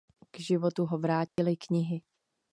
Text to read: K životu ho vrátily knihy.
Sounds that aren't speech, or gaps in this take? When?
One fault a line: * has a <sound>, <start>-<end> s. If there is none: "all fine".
* has a dropout, 1.3-1.4 s